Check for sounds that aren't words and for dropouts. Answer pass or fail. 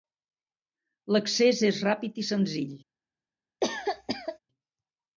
fail